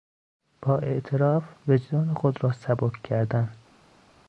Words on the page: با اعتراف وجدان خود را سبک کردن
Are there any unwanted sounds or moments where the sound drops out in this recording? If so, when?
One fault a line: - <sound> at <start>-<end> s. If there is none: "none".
none